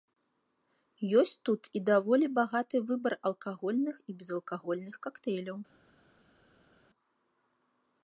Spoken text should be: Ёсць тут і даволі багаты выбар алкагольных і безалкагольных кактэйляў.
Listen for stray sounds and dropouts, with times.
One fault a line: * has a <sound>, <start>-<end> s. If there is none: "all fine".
all fine